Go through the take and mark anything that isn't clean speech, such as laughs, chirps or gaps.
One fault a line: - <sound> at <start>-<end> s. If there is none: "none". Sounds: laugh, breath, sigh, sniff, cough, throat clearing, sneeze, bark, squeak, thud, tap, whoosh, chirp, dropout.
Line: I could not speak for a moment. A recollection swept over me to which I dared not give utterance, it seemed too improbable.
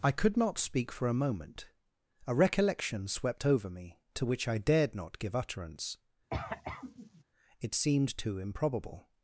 - cough at 6.3-7.2 s